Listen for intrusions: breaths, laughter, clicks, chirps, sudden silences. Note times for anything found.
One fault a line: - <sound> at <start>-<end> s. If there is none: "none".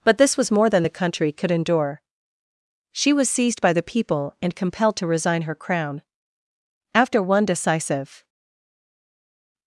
none